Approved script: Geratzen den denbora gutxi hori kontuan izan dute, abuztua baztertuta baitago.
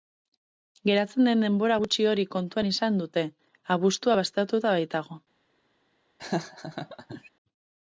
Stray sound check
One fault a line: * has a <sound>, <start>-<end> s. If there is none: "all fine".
* has a laugh, 6.2-7.3 s